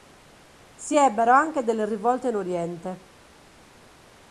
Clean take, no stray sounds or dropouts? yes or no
yes